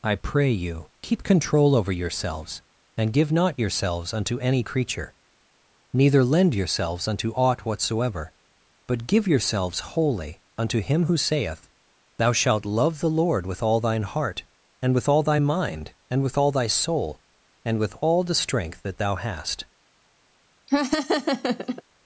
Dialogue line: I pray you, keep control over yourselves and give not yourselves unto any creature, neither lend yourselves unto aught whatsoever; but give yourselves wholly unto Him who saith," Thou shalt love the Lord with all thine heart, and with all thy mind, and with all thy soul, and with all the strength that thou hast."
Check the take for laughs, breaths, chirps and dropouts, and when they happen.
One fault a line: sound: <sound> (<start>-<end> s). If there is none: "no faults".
sound: laugh (20.7-21.8 s)